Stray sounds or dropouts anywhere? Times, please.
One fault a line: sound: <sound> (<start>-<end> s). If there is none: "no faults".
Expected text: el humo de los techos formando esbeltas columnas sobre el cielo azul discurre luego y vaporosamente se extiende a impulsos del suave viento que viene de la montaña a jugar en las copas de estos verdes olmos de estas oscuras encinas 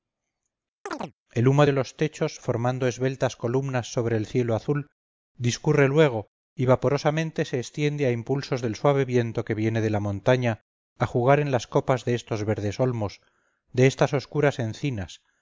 sound: chirp (0.9-1.1 s)